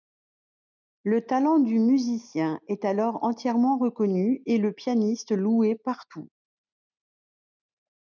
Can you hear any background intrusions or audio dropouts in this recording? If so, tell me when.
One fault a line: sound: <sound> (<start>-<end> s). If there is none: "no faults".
no faults